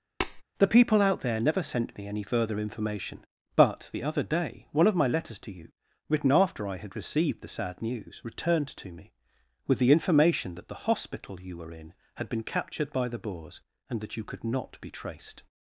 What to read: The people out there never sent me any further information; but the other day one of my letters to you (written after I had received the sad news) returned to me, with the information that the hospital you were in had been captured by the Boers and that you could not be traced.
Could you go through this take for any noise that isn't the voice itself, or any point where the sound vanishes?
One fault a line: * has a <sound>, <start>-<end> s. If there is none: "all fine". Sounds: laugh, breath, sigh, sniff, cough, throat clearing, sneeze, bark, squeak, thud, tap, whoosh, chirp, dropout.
* has a tap, 0.2-0.4 s